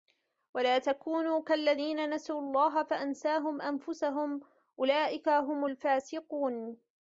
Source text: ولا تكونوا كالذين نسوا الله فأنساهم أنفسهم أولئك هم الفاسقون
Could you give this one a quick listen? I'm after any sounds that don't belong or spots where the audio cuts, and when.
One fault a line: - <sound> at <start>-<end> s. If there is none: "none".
none